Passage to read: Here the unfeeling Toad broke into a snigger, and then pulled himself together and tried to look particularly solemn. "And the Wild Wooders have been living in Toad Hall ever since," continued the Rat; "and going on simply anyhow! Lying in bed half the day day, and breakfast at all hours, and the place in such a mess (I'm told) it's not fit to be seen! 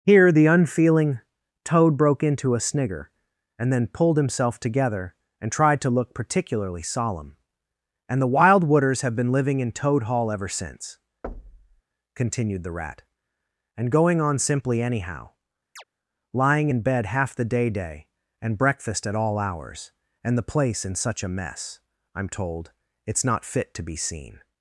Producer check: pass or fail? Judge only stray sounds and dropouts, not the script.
fail